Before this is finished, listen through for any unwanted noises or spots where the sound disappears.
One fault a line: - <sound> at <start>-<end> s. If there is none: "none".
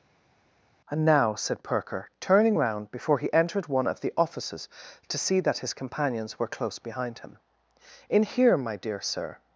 none